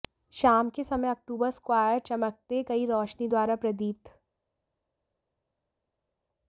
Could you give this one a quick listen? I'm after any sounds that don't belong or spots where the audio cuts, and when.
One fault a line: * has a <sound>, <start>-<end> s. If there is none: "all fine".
all fine